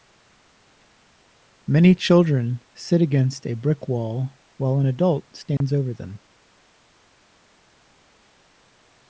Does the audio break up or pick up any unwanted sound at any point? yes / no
yes